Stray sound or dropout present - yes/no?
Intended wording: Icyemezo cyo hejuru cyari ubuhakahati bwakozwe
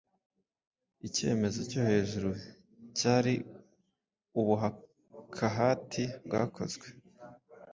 no